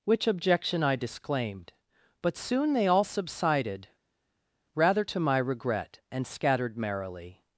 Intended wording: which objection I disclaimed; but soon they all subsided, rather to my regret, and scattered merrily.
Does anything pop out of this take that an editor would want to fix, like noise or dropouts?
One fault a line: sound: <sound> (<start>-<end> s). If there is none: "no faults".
no faults